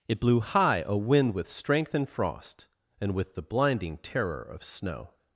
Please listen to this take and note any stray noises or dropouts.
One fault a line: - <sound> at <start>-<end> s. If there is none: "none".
none